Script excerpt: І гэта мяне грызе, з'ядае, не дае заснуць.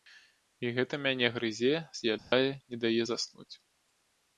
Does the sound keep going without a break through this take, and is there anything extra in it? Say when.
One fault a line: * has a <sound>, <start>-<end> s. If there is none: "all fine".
* has a dropout, 2.2-2.3 s